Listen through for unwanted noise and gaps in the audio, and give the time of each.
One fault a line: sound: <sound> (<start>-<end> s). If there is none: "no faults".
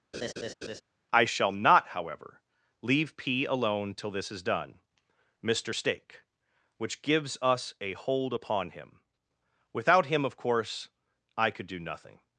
sound: laugh (0.1-0.8 s)